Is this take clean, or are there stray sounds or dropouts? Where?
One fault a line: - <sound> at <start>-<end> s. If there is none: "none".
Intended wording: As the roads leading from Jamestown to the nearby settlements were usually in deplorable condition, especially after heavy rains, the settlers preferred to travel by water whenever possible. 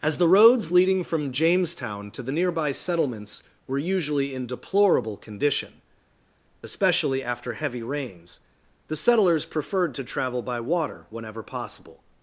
none